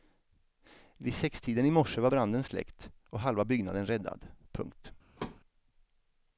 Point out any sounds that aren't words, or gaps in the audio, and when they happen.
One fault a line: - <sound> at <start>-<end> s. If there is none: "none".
- thud at 5.2-5.4 s